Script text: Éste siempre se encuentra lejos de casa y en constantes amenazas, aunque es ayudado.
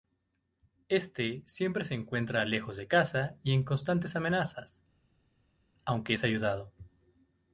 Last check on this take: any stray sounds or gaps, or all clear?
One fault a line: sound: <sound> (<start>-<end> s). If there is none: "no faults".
no faults